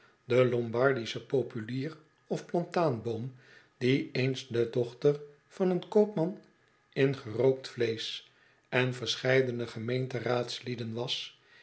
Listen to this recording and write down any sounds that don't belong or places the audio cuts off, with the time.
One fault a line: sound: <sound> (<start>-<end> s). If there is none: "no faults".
no faults